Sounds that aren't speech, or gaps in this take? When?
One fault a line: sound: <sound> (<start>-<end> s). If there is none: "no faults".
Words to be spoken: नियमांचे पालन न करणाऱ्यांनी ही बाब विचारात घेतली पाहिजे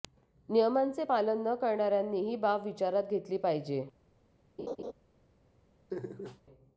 sound: laugh (4.6-4.9 s)
sound: laugh (5.9-6.4 s)